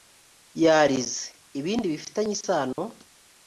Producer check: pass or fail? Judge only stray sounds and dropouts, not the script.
fail